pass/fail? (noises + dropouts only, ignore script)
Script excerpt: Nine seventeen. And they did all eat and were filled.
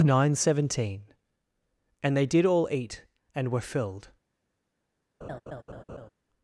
fail